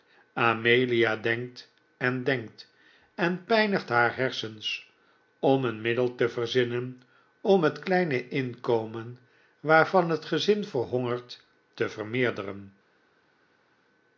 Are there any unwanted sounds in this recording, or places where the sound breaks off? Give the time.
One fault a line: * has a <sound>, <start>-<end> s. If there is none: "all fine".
all fine